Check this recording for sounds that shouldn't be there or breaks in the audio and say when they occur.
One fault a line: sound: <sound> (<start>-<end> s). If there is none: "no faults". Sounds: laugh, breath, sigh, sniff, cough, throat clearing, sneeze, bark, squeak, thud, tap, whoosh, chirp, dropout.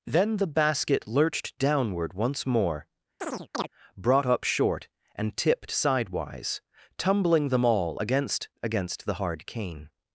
sound: chirp (3.2-3.7 s)